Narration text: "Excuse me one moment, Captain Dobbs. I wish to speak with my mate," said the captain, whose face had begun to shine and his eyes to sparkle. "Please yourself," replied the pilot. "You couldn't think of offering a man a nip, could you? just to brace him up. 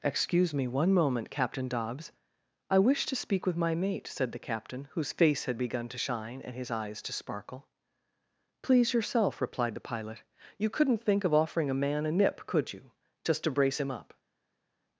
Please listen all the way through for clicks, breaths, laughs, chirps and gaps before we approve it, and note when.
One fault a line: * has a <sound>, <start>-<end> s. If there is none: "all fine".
all fine